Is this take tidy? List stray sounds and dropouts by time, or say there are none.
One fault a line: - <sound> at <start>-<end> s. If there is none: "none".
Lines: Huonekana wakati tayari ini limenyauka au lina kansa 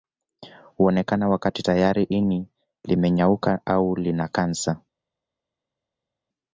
none